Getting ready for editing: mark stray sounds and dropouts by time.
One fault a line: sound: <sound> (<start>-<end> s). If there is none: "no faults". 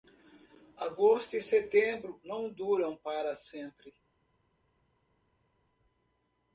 no faults